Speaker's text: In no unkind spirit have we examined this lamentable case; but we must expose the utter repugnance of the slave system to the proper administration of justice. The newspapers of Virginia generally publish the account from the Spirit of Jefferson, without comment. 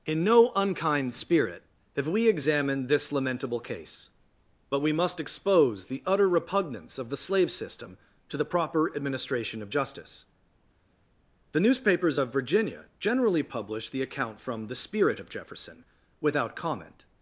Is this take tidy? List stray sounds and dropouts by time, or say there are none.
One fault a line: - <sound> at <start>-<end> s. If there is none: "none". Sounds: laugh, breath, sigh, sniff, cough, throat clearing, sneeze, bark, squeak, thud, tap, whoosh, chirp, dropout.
none